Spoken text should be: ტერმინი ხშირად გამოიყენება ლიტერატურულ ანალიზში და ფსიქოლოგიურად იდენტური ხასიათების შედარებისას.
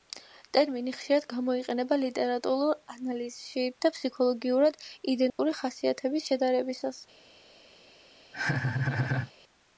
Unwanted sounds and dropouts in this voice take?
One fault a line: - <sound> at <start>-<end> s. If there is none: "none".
- dropout at 5.3-5.4 s
- laugh at 8.3-9.3 s